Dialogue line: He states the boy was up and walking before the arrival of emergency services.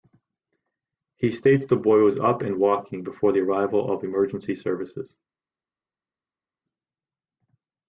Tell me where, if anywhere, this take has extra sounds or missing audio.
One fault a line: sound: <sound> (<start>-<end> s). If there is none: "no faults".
no faults